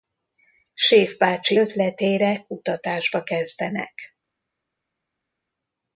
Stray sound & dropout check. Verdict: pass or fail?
pass